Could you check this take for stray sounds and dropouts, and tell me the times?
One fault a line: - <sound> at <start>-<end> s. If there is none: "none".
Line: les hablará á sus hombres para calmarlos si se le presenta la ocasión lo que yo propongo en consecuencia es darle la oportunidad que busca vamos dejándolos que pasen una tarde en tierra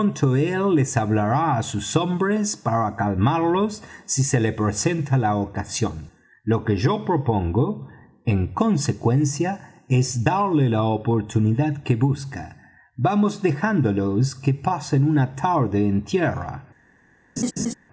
- laugh at 17.4-17.7 s